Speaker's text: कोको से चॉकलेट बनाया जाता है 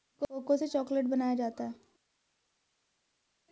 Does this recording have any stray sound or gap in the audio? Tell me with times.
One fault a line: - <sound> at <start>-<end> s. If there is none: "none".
none